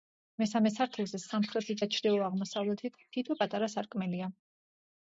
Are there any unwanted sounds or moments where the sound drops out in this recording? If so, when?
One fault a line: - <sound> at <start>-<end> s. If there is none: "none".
none